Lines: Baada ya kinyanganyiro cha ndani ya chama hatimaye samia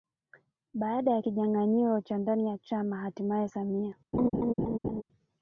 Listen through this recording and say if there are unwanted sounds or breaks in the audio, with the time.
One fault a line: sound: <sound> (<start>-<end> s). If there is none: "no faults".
sound: laugh (4.1-5.0 s)